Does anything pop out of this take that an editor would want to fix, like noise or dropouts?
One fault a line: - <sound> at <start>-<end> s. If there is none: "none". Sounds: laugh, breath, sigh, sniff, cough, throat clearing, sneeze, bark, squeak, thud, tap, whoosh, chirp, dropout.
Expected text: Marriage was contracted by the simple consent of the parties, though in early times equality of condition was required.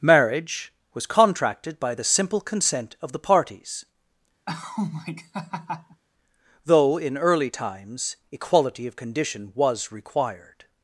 - laugh at 4.5-6.0 s